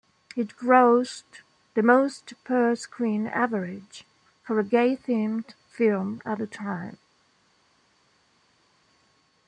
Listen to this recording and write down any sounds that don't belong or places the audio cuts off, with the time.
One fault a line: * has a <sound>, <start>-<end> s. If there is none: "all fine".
all fine